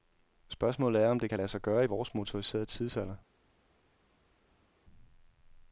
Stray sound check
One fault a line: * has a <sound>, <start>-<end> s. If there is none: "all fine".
all fine